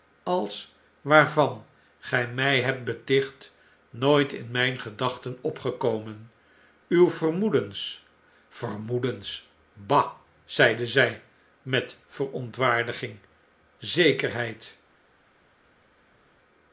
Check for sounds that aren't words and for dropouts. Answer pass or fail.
pass